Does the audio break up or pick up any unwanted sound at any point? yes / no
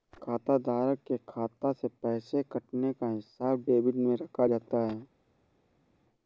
no